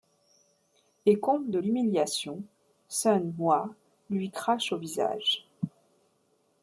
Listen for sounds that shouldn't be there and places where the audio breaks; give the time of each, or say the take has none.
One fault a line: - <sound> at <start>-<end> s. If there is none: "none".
none